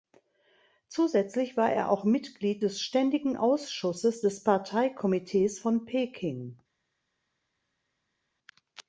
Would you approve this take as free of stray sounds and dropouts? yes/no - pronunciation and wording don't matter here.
yes